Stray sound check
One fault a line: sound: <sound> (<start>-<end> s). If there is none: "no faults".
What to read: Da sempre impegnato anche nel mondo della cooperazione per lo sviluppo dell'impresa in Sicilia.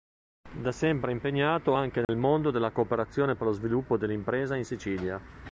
sound: dropout (2.0-2.1 s)